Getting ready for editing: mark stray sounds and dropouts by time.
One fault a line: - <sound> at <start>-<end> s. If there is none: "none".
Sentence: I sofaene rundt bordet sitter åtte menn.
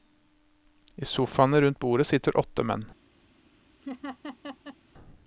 - laugh at 3.8-4.8 s